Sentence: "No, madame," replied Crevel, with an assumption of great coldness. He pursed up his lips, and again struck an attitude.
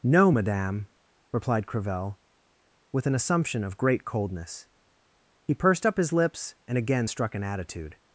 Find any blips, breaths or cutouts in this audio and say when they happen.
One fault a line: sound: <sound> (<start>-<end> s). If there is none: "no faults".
no faults